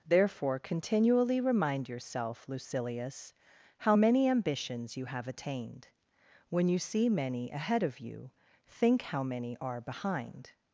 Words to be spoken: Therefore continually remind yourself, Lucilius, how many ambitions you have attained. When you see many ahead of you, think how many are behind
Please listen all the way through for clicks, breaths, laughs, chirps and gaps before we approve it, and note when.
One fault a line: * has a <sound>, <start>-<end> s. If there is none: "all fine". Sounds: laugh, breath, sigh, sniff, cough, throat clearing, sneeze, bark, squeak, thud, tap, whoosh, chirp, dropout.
all fine